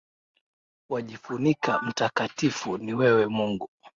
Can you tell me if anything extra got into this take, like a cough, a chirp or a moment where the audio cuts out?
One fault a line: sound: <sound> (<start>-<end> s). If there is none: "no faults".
no faults